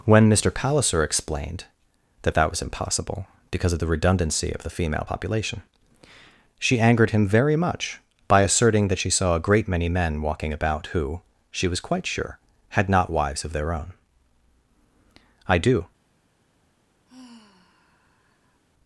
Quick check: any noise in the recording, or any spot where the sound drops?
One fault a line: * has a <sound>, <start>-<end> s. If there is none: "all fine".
* has a sigh, 17.0-18.6 s